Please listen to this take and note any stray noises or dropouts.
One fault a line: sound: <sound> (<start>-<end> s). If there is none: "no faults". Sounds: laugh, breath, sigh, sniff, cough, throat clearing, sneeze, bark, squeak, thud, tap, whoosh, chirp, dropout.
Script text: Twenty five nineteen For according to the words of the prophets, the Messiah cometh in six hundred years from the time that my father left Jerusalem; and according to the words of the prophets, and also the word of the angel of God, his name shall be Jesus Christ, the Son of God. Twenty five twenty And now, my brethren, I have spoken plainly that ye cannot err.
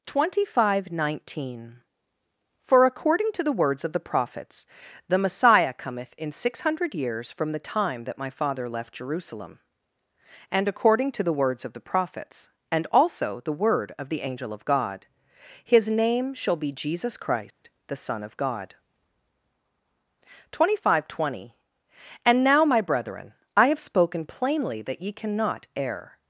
sound: dropout (17.5-17.6 s)